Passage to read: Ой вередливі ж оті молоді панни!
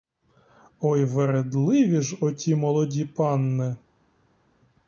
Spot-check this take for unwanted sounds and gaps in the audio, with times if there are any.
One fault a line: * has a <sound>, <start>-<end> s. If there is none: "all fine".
all fine